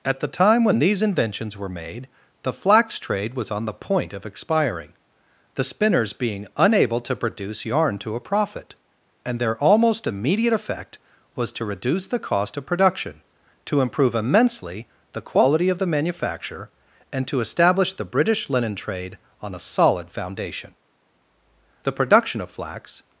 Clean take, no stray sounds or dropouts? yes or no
yes